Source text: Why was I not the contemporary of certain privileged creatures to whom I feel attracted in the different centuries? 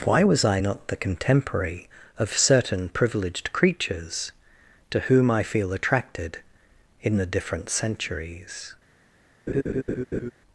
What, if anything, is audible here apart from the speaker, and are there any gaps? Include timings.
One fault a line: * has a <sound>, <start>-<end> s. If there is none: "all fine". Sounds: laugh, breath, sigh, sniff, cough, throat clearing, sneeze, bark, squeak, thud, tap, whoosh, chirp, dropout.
* has a laugh, 9.5-10.3 s